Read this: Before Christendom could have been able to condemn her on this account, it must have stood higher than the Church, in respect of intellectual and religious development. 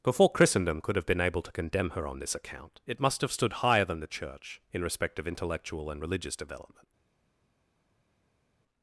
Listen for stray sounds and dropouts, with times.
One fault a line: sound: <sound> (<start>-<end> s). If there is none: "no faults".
no faults